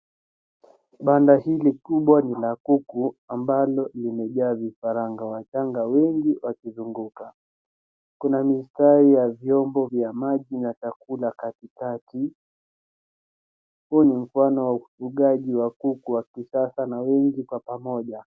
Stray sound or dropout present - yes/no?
no